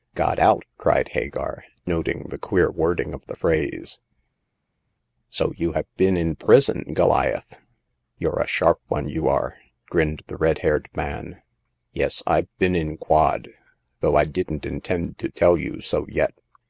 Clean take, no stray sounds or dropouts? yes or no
yes